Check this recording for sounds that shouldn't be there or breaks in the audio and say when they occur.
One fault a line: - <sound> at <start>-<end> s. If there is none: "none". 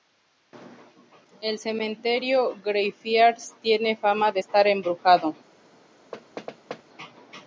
- thud at 6.1-6.8 s